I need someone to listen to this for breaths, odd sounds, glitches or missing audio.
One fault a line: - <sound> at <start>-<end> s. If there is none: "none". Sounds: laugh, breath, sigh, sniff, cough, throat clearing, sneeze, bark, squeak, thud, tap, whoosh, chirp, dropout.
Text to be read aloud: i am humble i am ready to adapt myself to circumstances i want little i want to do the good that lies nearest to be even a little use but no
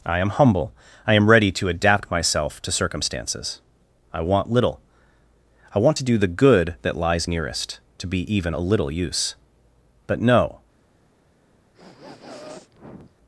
- sniff at 11.7-13.2 s